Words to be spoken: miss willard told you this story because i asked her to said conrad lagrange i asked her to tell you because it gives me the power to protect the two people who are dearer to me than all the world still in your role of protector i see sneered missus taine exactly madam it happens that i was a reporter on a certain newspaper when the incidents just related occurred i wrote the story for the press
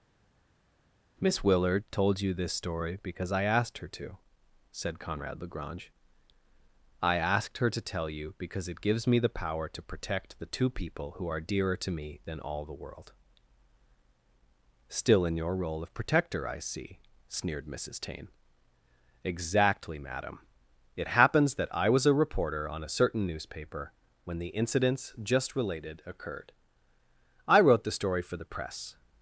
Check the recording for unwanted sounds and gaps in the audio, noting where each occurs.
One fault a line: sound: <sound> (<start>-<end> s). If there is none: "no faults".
no faults